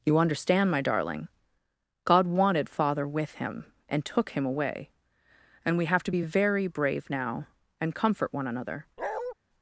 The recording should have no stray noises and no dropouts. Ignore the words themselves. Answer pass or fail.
fail